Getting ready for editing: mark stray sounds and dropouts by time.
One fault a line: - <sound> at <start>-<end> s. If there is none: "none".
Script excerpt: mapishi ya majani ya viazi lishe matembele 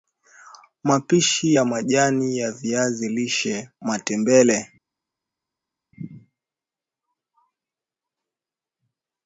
none